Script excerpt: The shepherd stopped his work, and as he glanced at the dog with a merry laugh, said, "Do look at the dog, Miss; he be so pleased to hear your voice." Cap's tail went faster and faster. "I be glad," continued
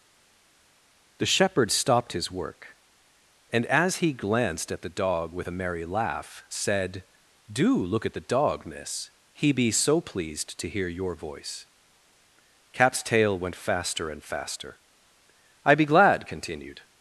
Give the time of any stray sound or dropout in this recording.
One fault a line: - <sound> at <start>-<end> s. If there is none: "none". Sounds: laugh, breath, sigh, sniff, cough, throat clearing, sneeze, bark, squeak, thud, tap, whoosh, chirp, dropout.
none